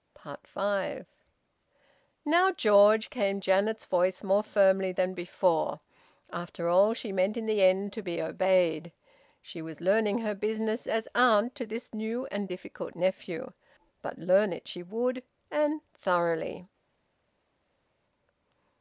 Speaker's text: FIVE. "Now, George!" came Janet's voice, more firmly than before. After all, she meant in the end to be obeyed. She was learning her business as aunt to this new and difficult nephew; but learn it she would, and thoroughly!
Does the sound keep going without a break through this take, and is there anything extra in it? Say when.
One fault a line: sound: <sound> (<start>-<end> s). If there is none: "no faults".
no faults